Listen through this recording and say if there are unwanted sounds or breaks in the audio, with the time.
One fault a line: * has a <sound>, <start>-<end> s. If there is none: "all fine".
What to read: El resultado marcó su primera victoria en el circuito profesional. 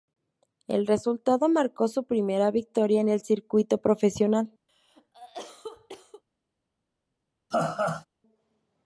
* has a cough, 4.7-6.2 s
* has a laugh, 7.5-8.1 s